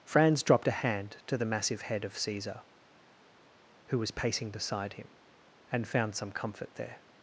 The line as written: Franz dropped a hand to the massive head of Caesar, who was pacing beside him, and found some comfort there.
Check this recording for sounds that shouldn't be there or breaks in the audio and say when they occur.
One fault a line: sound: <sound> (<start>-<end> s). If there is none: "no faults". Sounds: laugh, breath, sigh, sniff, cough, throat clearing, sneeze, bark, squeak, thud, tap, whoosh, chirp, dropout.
no faults